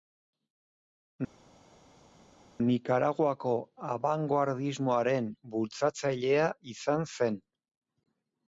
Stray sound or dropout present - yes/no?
no